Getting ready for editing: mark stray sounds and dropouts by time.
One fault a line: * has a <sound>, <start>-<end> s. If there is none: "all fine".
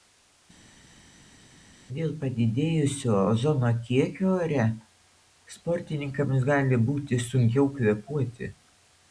all fine